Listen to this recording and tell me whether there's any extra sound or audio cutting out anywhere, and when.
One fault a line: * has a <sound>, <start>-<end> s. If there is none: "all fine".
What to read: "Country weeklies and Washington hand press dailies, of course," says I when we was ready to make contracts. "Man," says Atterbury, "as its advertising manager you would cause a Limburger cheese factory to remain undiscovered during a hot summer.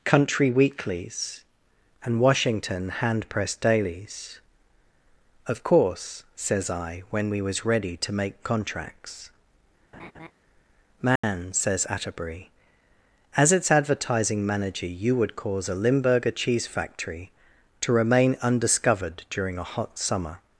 * has a laugh, 9.9-10.3 s
* has a dropout, 11.2-11.2 s